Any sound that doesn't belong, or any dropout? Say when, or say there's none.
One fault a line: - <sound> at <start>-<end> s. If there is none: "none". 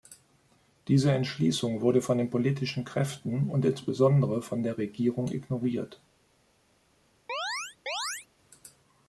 - chirp at 7.3-8.3 s